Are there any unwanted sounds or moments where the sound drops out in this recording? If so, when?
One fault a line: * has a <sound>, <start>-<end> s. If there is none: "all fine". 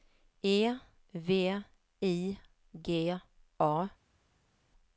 all fine